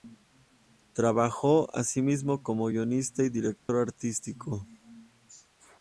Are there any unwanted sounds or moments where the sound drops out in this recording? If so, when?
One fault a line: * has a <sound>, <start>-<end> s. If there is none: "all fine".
* has a dropout, 3.6-3.7 s